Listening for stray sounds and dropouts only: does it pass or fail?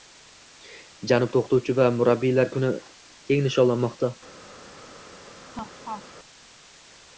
fail